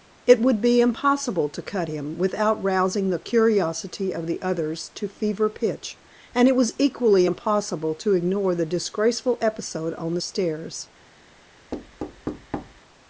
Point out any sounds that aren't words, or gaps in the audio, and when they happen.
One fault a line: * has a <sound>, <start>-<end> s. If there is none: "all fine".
* has a thud, 11.7-12.8 s